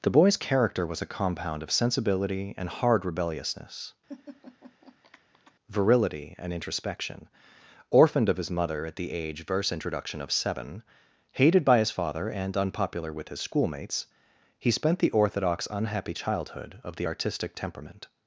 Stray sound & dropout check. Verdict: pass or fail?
fail